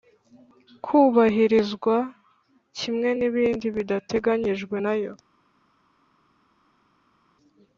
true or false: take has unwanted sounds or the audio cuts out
false